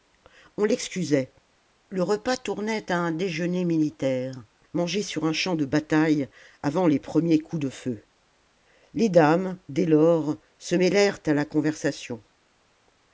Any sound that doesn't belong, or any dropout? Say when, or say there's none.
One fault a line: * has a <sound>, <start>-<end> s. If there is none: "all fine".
all fine